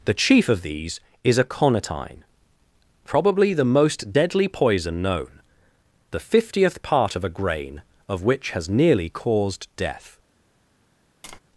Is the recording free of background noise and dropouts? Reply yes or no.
no